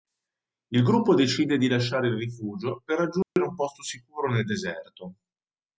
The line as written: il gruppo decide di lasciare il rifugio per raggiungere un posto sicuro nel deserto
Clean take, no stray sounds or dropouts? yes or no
no